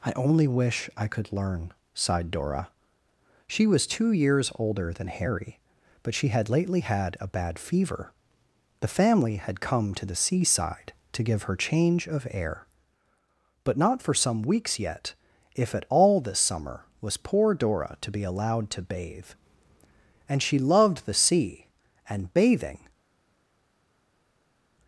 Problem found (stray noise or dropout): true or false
false